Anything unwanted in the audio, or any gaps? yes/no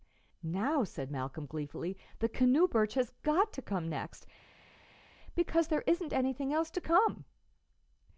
no